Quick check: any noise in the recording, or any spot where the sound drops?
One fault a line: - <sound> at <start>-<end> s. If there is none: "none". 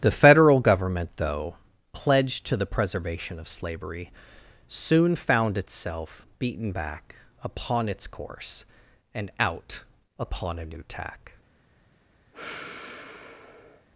- sigh at 12.3-13.9 s